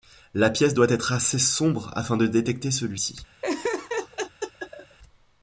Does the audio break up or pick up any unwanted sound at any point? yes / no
yes